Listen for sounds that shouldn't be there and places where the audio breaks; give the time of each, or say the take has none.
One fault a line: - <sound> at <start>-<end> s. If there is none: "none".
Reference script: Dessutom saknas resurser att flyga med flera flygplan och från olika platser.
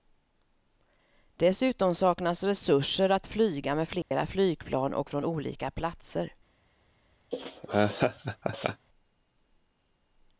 - dropout at 4.0-4.1 s
- laugh at 7.3-8.9 s